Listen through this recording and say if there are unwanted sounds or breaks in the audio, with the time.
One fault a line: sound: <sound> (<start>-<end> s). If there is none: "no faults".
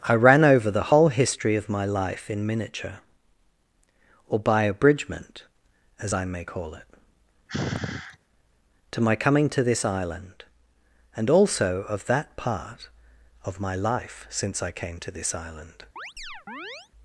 sound: sigh (7.5-8.2 s)
sound: chirp (16.0-16.9 s)